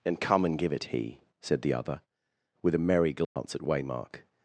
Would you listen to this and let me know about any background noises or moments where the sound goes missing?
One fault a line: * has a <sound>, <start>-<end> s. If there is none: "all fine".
* has a dropout, 3.2-3.4 s